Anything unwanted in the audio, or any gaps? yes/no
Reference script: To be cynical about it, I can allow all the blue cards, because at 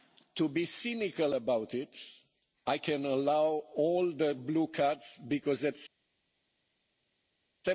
no